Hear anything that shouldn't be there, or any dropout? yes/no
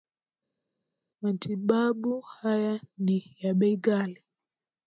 no